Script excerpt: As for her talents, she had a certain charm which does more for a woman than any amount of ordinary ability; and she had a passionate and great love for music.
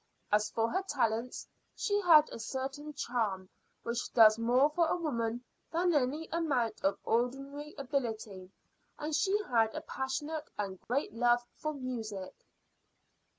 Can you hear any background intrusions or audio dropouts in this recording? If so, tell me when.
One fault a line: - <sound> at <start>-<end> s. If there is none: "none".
- dropout at 10.8-10.9 s